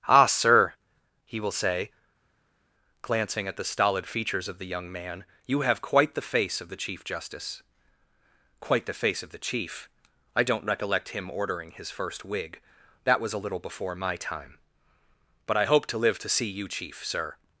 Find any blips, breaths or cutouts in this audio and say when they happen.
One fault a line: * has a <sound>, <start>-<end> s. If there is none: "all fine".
all fine